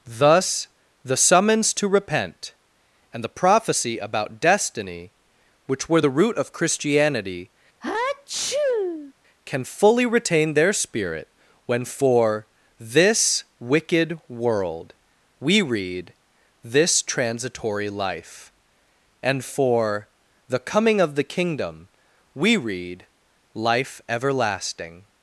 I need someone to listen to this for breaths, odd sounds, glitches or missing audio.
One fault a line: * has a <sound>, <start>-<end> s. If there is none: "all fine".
* has a sneeze, 7.8-9.1 s